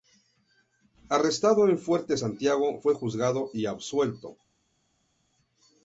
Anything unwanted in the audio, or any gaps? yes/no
no